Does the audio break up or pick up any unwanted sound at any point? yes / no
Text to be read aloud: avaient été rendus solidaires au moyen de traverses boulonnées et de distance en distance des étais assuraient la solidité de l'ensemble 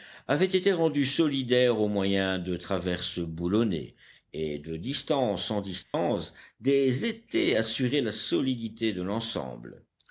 yes